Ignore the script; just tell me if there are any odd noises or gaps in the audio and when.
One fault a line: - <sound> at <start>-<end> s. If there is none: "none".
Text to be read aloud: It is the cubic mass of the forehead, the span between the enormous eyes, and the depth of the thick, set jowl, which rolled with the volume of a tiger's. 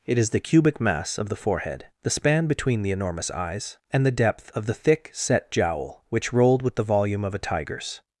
none